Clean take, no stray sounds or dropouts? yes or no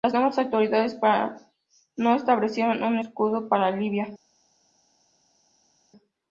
yes